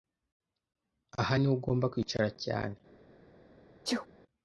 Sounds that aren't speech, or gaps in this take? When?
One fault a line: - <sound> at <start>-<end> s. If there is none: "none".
- sneeze at 3.8-4.1 s